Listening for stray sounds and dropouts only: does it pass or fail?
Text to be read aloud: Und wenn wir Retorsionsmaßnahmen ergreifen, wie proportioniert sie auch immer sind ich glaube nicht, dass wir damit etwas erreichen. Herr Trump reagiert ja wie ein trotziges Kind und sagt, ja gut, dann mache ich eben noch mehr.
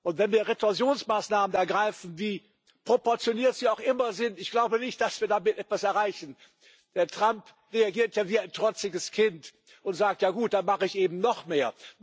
pass